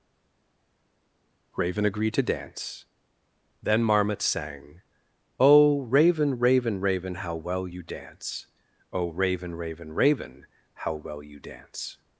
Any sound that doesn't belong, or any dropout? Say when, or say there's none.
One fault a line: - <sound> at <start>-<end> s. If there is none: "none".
none